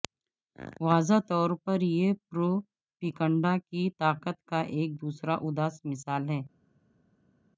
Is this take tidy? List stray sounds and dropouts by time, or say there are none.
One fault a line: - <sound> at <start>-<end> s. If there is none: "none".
none